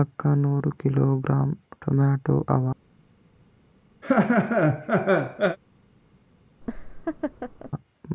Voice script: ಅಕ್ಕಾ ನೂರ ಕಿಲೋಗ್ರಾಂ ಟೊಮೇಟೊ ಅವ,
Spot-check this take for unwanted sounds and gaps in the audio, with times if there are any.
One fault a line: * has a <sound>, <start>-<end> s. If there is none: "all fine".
* has a laugh, 4.0-5.6 s
* has a laugh, 6.6-7.7 s